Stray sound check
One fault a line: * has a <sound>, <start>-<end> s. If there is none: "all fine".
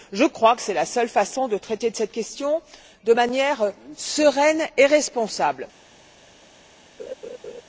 * has a laugh, 7.0-7.6 s